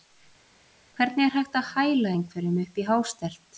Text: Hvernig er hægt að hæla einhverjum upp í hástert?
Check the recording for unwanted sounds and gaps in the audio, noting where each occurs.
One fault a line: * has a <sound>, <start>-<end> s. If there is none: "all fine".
all fine